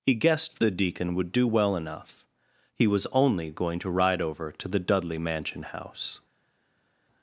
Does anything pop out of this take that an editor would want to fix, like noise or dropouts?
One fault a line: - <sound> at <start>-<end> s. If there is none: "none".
none